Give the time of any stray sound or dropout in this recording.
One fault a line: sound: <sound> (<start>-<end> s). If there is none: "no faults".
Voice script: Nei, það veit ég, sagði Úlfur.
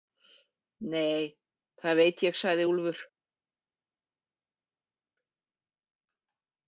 no faults